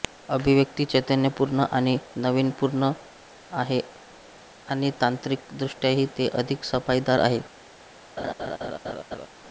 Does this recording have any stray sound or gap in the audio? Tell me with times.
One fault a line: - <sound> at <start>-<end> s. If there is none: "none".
- laugh at 8.2-9.3 s